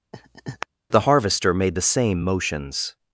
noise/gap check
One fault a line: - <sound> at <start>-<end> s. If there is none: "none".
- laugh at 0.1-0.7 s